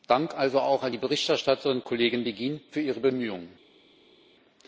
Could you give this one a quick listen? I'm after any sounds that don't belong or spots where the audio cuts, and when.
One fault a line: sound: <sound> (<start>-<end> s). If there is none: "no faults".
no faults